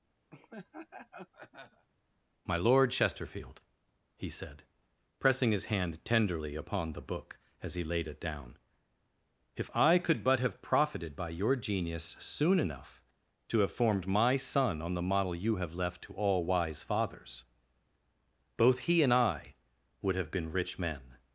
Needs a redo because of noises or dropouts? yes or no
yes